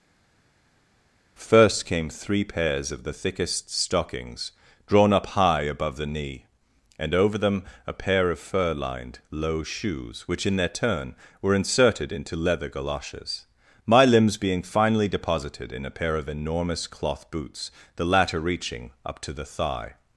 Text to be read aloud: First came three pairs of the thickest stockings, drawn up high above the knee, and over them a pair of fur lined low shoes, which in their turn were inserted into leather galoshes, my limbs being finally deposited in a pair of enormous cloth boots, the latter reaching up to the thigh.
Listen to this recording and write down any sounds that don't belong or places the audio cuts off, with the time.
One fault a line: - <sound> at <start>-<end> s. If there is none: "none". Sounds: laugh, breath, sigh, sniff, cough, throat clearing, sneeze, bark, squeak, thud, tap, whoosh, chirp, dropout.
none